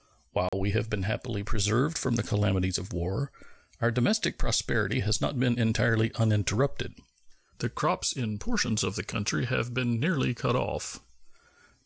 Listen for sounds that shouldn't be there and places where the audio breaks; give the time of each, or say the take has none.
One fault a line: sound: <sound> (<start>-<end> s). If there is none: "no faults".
sound: dropout (0.5-0.5 s)